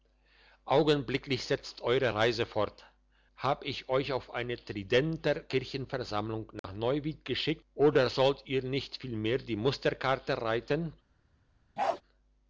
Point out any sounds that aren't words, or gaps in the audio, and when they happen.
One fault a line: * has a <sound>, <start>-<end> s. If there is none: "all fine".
* has a dropout, 6.6-6.6 s
* has a bark, 11.8-12.0 s